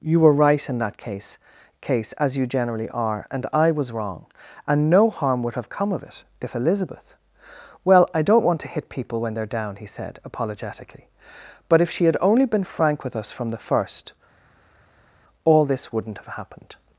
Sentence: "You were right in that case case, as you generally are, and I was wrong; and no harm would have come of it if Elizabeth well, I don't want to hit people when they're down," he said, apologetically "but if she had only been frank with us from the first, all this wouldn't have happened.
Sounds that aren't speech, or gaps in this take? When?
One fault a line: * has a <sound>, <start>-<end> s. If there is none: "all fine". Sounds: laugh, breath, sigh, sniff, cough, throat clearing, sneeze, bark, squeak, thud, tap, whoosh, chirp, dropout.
all fine